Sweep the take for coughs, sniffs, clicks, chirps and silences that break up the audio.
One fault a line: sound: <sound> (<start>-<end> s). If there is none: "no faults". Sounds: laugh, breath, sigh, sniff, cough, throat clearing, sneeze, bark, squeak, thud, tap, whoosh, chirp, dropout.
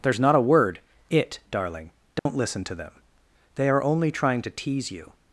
sound: dropout (2.2-2.3 s)